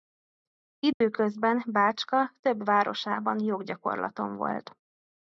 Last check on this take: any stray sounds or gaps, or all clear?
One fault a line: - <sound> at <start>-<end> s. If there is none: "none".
- dropout at 0.9-1.0 s